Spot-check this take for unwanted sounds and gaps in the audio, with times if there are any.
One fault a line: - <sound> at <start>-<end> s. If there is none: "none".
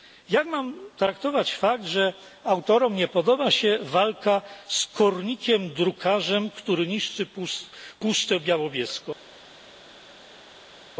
none